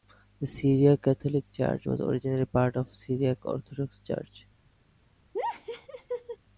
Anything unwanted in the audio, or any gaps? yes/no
yes